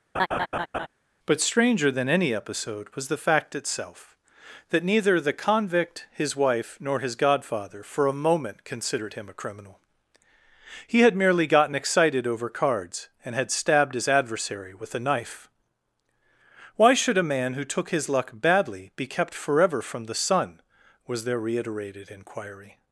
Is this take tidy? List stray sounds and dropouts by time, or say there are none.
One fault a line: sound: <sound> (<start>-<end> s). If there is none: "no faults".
sound: laugh (0.1-0.9 s)